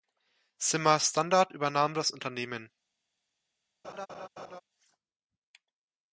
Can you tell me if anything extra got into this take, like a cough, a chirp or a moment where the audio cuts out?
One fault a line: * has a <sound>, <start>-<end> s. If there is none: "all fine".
* has a laugh, 3.8-4.6 s